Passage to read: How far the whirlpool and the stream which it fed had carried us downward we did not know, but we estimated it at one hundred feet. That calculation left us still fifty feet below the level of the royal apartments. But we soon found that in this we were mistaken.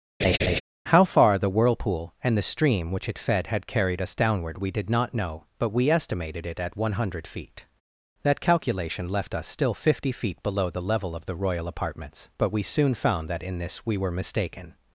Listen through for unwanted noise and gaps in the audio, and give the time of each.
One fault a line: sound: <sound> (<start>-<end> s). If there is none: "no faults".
sound: laugh (0.2-0.6 s)